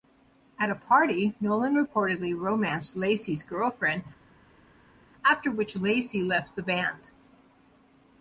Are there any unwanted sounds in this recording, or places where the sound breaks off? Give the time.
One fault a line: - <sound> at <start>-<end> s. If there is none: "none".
none